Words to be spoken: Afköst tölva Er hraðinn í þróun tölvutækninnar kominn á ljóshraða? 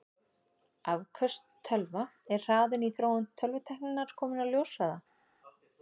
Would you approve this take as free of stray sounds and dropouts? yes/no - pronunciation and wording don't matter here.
yes